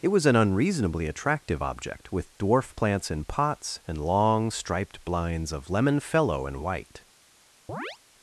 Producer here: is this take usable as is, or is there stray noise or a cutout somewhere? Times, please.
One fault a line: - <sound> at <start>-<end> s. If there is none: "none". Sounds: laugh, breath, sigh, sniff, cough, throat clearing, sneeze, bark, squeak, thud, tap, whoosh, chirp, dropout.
- chirp at 7.7-8.0 s